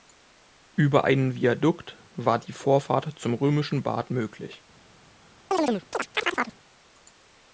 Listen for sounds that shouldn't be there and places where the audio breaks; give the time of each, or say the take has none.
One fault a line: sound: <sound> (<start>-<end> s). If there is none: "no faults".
sound: chirp (5.5-6.6 s)